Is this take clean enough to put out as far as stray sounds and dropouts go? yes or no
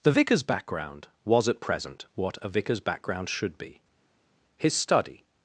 yes